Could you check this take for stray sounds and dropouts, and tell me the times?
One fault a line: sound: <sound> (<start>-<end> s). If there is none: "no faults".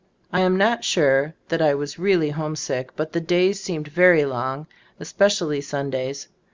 no faults